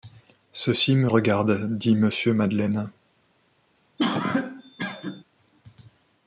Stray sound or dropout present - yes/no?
yes